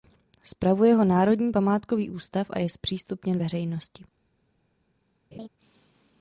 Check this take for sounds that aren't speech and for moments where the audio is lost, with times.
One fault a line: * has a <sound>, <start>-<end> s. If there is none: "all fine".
* has a laugh, 5.3-5.5 s